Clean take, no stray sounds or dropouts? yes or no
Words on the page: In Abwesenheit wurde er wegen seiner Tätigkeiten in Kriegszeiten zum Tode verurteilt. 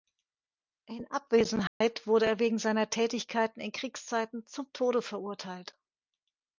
no